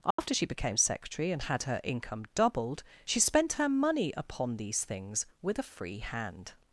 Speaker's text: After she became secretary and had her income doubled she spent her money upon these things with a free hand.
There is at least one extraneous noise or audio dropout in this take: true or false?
true